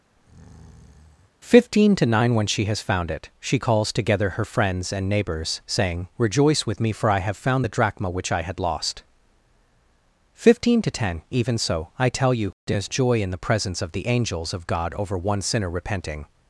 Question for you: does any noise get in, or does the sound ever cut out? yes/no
yes